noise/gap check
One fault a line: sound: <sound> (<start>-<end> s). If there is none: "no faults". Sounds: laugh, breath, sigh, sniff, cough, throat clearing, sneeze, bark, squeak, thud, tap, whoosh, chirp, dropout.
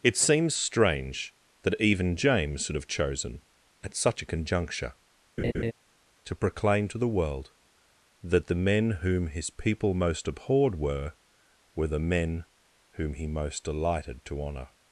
sound: laugh (5.4-5.7 s)